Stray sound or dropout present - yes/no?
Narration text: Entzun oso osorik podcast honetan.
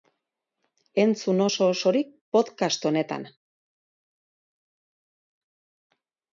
no